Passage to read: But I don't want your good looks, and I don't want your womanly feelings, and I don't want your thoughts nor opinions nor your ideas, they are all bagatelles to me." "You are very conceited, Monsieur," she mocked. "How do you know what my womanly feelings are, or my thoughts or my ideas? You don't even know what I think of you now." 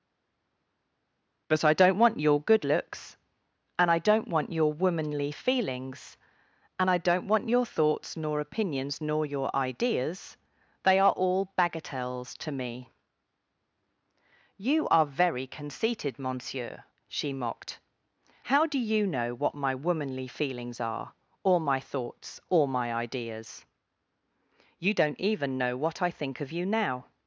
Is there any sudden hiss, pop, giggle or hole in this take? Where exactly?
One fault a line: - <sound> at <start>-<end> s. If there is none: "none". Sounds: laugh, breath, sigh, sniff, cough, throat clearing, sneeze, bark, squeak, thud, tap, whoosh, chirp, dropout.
none